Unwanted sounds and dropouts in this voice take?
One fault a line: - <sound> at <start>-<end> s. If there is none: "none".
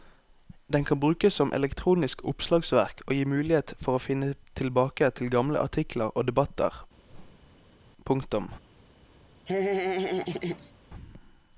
- whoosh at 7.1-7.8 s
- laugh at 9.5-10.7 s